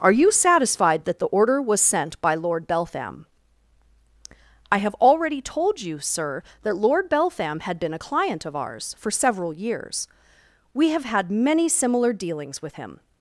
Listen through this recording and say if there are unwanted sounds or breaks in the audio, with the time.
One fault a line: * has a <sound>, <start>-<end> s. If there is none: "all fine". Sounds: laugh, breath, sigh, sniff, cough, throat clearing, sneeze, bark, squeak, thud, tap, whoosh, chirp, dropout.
all fine